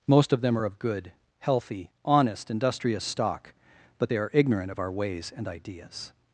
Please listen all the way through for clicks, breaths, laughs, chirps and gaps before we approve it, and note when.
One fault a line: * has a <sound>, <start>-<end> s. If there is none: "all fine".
all fine